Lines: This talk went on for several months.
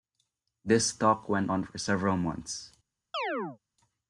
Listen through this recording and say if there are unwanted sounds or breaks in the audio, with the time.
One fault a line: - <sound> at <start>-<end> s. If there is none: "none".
- chirp at 3.1-3.6 s